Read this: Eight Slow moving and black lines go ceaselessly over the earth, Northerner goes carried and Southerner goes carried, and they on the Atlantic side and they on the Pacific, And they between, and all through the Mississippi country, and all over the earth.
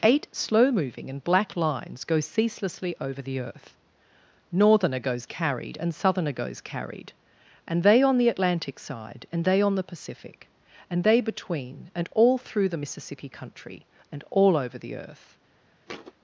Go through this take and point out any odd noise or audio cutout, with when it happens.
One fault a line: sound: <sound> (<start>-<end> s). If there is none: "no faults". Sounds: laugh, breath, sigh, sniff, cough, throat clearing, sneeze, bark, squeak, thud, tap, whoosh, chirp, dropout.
sound: thud (15.9-16.1 s)